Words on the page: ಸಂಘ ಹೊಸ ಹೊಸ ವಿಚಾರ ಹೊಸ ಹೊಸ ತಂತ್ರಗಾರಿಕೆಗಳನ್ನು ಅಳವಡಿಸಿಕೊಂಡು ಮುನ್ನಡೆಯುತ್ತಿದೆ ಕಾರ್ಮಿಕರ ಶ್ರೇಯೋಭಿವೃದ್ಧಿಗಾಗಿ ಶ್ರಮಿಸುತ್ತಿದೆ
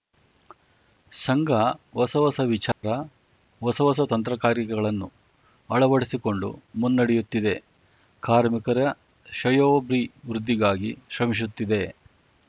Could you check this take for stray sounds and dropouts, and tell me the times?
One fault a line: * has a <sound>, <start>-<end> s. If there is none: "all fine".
* has a dropout, 2.7-2.8 s